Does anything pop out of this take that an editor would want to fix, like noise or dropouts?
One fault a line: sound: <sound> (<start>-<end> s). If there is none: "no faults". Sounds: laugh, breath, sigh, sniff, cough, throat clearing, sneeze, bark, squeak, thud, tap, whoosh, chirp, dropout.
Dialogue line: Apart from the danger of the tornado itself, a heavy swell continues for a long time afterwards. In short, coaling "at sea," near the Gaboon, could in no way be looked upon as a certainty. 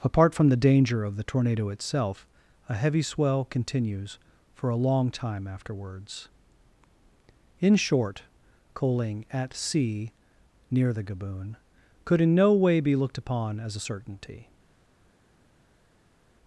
no faults